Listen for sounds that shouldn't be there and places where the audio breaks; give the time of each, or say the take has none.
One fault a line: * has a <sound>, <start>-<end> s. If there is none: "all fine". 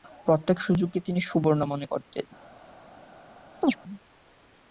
* has a chirp, 3.6-3.8 s